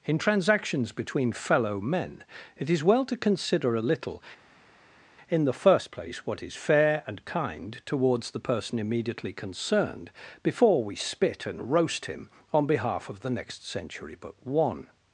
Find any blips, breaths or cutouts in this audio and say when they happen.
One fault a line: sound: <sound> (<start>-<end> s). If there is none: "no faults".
no faults